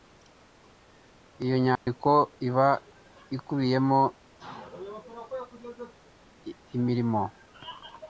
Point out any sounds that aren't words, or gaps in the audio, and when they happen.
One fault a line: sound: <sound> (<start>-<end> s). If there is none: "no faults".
sound: dropout (1.8-1.9 s)